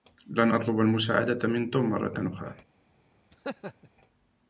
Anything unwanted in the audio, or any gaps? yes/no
yes